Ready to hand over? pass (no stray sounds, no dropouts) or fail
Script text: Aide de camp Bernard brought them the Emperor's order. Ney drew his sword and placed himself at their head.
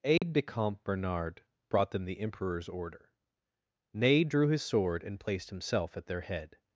fail